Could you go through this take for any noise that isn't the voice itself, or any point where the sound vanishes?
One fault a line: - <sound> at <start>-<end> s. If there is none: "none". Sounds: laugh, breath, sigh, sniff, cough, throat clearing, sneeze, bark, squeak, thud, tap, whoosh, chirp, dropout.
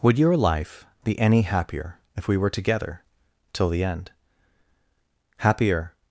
none